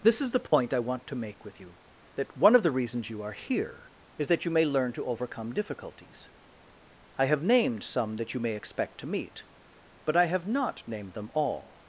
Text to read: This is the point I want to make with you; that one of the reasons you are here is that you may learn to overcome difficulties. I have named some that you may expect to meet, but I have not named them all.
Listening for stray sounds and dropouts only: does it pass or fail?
fail